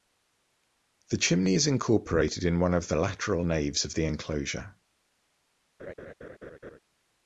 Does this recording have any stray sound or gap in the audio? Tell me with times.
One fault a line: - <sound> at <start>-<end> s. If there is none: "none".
- laugh at 5.8-6.8 s